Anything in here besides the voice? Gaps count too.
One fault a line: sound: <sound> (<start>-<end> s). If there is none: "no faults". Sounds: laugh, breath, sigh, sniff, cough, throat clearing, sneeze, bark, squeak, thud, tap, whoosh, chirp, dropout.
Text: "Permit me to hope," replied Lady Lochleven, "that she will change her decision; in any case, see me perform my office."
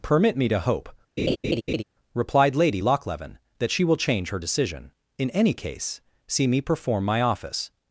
sound: laugh (1.2-1.8 s)